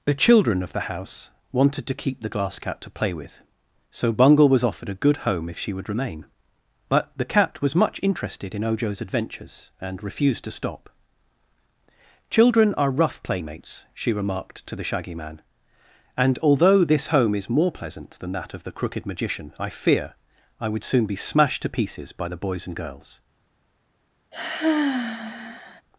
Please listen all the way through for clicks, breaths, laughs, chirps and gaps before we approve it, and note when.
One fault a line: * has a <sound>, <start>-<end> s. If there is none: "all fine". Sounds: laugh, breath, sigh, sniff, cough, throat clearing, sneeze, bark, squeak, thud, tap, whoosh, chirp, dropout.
* has a sigh, 24.3-25.8 s